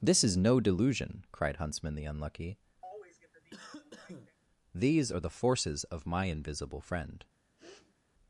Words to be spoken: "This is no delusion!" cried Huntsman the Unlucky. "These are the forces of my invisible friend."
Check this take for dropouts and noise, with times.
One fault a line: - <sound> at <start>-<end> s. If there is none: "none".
- cough at 2.8-4.4 s
- sniff at 7.6-8.0 s